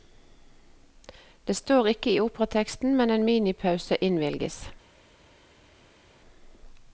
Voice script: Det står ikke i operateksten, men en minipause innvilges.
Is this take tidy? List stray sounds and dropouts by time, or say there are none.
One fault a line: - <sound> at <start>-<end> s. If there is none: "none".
none